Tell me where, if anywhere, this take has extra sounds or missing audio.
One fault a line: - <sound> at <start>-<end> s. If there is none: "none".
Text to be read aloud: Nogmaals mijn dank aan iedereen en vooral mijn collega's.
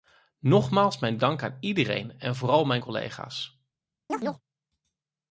- chirp at 4.1-4.4 s